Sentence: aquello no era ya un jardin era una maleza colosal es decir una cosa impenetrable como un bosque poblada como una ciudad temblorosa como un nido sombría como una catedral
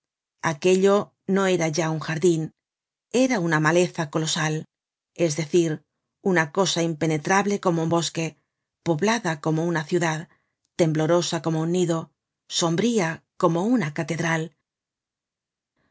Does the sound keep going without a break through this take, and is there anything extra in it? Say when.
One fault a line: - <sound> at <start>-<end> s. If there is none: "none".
none